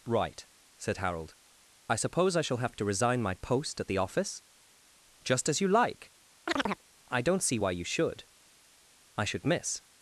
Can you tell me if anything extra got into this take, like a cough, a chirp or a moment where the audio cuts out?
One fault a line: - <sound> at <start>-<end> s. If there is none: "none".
- chirp at 6.5-6.8 s